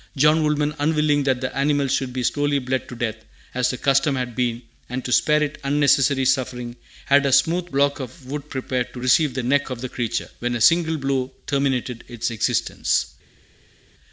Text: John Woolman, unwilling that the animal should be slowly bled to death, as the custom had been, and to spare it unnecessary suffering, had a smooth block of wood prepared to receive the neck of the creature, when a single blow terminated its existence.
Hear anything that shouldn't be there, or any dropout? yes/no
no